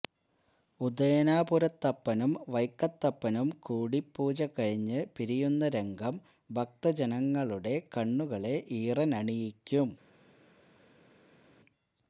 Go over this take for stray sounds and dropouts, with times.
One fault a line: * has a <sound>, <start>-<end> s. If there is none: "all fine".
all fine